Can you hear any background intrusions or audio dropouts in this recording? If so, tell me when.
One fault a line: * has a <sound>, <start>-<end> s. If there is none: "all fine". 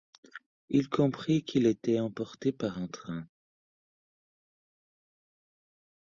all fine